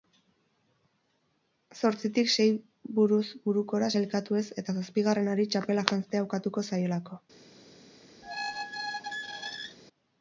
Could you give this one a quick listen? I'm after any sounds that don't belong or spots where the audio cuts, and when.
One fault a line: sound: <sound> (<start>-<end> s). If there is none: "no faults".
sound: squeak (8.2-9.8 s)